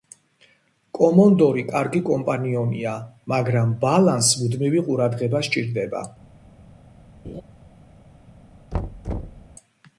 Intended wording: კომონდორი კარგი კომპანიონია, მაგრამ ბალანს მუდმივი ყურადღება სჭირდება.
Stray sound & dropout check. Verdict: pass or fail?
fail